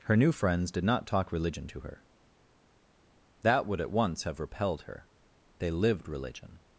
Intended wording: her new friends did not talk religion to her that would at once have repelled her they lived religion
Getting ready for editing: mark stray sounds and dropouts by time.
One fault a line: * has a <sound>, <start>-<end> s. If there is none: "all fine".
all fine